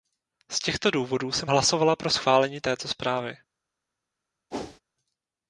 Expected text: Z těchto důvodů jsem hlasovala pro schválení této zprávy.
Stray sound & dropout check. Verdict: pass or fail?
fail